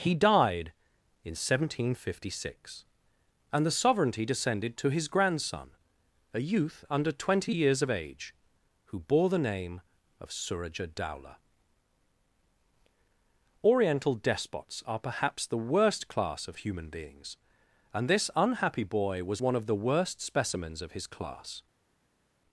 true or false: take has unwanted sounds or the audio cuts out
false